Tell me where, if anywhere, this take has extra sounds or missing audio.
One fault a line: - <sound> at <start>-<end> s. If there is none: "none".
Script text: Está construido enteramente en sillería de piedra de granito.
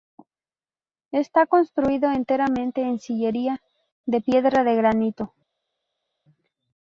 none